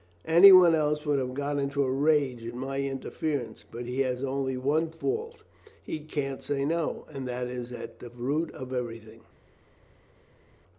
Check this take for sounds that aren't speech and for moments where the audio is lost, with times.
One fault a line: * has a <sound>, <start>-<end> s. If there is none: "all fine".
all fine